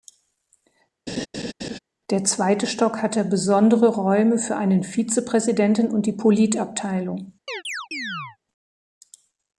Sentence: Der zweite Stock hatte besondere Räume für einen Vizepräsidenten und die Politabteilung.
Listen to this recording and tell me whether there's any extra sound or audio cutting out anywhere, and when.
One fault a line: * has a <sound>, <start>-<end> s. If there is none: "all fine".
* has a laugh, 1.1-1.8 s
* has a chirp, 7.5-8.4 s